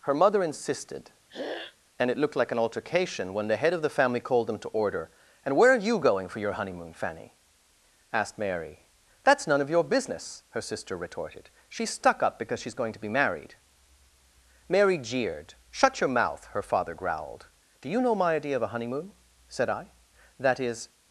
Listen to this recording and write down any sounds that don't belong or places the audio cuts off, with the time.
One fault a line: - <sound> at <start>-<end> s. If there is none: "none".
- throat clearing at 1.3-1.8 s